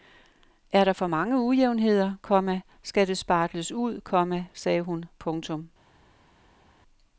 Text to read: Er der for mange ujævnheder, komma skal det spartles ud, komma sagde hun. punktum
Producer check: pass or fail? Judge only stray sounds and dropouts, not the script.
pass